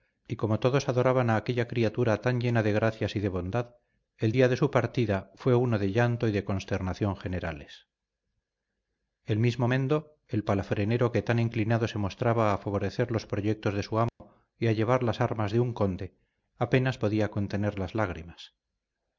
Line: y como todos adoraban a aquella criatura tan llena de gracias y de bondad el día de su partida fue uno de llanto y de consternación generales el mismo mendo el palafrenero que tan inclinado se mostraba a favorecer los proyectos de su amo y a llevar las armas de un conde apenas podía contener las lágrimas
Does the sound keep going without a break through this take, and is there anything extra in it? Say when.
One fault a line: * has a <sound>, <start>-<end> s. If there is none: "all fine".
* has a dropout, 14.1-14.2 s